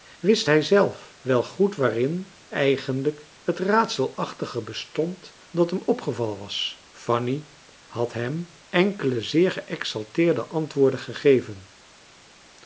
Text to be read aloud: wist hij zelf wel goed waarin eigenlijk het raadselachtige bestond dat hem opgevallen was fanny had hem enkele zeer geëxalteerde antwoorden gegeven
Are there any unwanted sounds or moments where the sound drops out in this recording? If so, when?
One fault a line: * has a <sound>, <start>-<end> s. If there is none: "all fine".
all fine